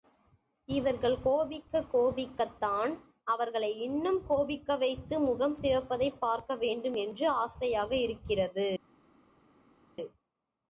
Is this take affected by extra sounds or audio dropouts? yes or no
no